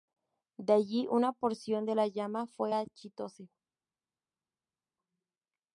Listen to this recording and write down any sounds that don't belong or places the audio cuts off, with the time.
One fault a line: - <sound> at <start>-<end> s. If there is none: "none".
none